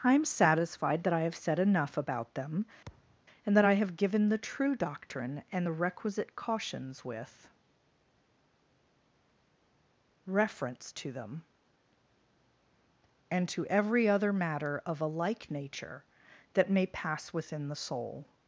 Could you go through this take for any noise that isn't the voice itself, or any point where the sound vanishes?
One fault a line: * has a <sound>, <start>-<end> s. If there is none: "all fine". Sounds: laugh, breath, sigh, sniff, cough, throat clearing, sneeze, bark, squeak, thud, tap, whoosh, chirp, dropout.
* has a thud, 2.9-3.2 s